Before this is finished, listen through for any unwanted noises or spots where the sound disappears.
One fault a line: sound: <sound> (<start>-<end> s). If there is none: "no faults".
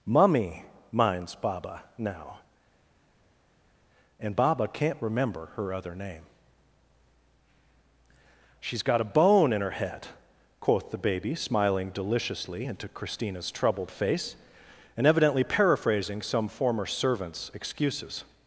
no faults